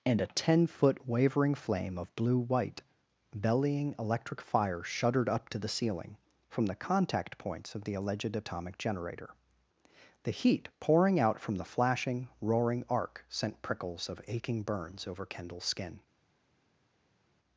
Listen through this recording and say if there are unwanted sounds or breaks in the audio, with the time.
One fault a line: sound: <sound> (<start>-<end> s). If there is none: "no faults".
no faults